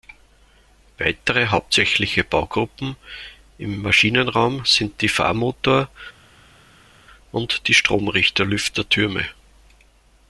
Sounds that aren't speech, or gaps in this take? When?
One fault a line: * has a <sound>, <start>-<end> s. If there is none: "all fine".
all fine